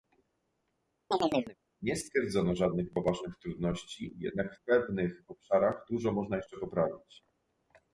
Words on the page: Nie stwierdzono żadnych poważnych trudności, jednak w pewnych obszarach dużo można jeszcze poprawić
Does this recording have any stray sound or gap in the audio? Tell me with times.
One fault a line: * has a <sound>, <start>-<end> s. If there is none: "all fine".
* has a chirp, 1.1-1.6 s